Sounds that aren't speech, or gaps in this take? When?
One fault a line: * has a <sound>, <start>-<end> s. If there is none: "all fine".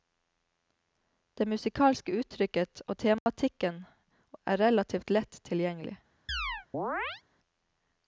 * has a dropout, 3.2-3.3 s
* has a chirp, 6.3-7.2 s